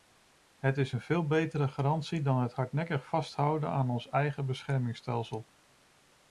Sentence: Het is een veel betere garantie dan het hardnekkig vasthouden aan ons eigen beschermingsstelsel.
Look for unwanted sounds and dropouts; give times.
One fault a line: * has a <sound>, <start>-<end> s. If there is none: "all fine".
all fine